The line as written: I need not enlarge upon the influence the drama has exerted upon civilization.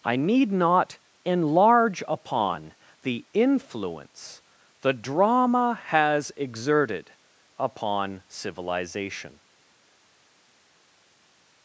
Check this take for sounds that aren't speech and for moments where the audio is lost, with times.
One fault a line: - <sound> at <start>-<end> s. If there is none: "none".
none